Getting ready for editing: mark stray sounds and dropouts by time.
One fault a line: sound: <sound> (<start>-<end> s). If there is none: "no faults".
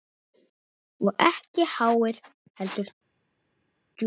no faults